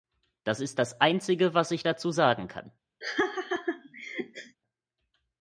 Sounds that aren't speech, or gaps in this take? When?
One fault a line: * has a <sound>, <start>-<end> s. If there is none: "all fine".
* has a laugh, 3.0-4.6 s